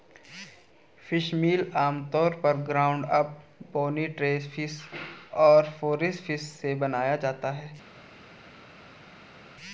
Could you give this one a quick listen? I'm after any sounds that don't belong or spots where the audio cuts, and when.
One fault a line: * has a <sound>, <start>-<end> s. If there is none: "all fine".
all fine